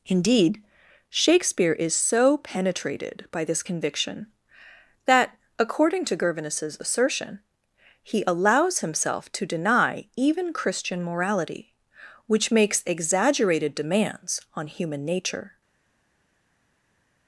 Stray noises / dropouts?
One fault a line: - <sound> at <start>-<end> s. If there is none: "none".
none